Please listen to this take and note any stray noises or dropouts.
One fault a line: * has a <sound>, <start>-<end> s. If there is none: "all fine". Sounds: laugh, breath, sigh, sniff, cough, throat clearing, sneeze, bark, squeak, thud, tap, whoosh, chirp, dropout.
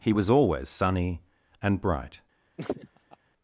* has a laugh, 2.6-3.2 s